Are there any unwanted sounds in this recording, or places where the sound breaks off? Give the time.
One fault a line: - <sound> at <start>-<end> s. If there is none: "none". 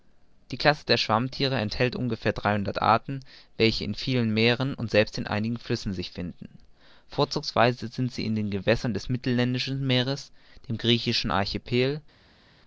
none